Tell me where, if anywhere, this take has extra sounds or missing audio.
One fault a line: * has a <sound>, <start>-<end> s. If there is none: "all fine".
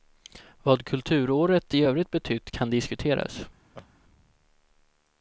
* has a laugh, 3.7-3.9 s